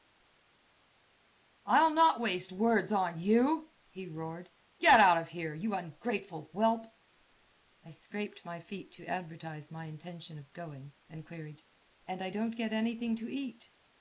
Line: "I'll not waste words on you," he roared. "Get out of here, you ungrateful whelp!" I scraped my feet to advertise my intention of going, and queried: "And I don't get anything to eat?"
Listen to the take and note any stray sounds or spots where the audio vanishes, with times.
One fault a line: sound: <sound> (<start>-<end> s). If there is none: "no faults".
no faults